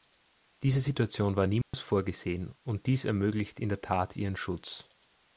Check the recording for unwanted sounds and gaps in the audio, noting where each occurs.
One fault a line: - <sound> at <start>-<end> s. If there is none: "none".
- dropout at 1.6-1.7 s